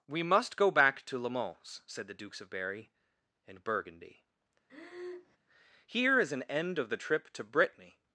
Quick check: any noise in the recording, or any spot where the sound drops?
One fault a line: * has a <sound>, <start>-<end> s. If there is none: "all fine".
* has a breath, 4.7-5.4 s